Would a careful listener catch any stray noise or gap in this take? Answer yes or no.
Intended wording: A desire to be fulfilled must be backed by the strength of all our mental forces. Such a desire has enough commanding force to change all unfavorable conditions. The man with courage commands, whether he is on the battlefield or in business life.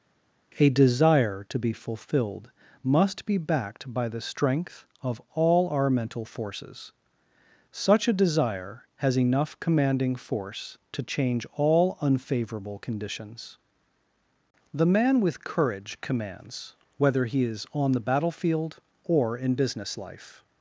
no